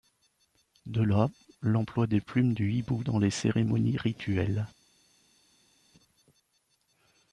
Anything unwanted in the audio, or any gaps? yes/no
no